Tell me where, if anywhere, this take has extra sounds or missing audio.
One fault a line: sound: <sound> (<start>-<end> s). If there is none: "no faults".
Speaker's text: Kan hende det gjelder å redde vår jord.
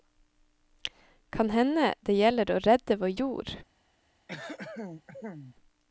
sound: throat clearing (4.3-5.6 s)